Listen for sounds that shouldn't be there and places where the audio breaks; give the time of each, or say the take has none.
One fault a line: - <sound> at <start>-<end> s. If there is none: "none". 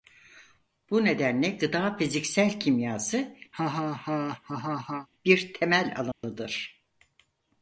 - laugh at 3.5-5.1 s
- dropout at 6.1-6.2 s